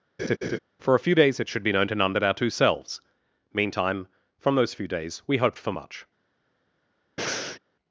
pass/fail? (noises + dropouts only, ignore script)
fail